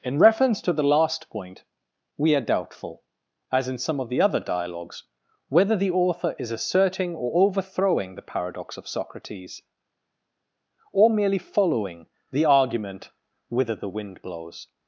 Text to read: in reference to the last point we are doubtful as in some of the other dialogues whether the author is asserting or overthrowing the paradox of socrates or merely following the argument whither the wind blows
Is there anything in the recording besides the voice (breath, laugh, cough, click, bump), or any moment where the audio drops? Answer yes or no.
no